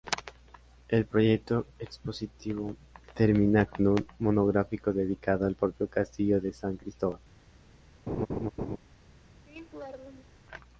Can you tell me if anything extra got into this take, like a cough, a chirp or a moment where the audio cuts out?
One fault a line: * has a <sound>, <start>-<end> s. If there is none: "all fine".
* has a laugh, 8.1-8.8 s
* has a laugh, 9.5-10.4 s